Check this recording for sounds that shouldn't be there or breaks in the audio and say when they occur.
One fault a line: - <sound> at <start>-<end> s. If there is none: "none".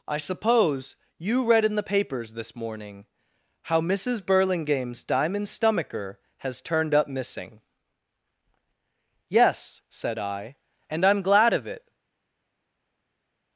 none